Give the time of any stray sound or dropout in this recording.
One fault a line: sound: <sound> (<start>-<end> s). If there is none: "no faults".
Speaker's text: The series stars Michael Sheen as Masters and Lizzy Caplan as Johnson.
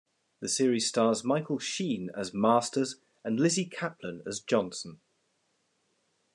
no faults